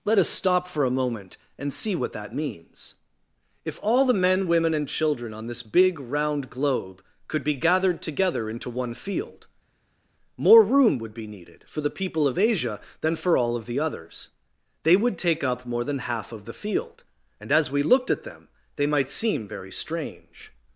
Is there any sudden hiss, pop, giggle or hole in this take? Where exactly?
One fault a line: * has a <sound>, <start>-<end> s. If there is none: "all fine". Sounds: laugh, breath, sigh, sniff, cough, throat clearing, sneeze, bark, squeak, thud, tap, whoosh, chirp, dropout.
all fine